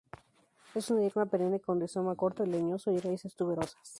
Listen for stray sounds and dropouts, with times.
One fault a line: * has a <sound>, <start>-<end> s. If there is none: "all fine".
all fine